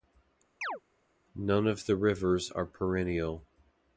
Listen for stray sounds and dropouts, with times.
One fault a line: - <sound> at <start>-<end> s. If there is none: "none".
- chirp at 0.6-0.8 s